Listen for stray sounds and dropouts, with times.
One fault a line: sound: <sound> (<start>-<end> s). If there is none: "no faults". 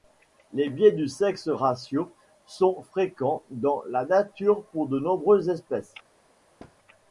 sound: thud (6.6-6.8 s)